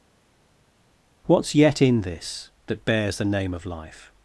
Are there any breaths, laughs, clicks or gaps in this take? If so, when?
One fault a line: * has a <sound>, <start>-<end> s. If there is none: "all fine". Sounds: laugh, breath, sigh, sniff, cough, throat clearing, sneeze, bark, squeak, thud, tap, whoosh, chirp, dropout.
all fine